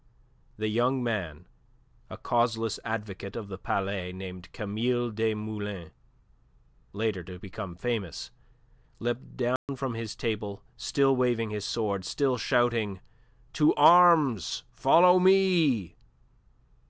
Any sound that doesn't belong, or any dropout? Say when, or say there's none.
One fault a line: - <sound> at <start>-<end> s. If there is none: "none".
- dropout at 9.6-9.7 s